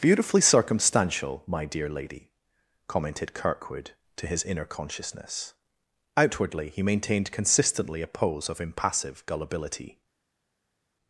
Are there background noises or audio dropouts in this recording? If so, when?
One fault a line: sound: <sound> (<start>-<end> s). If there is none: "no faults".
no faults